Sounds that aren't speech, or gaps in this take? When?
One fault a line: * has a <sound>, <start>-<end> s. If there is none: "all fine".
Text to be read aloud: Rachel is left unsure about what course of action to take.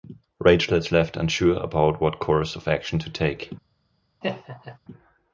* has a laugh, 4.2-4.8 s